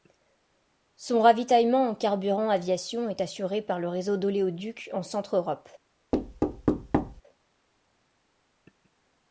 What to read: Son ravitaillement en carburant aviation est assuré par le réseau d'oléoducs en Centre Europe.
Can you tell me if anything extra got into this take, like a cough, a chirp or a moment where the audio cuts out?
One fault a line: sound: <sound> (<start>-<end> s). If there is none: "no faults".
sound: thud (6.1-7.2 s)